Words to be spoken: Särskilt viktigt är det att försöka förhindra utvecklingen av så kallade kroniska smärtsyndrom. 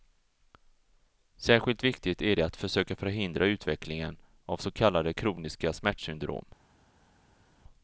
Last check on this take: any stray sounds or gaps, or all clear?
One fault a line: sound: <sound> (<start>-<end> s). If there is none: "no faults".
no faults